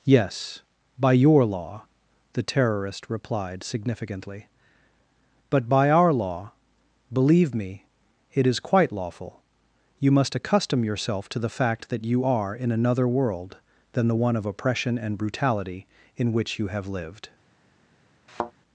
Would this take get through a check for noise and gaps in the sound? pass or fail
fail